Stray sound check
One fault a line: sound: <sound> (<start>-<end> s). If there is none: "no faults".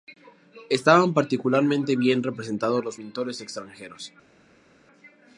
no faults